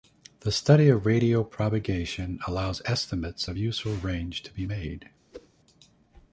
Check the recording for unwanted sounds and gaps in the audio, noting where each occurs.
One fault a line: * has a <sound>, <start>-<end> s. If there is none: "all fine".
* has a whoosh, 5.3-5.5 s